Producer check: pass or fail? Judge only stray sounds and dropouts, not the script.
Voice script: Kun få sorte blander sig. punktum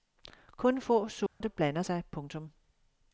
fail